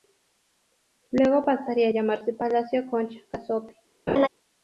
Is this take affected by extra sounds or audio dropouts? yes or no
yes